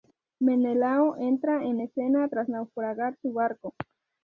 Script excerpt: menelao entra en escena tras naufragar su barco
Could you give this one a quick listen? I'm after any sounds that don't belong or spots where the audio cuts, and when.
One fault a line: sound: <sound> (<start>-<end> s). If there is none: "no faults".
no faults